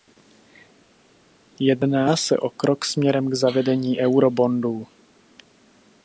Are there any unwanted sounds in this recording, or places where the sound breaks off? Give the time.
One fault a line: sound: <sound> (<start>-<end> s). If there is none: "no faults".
no faults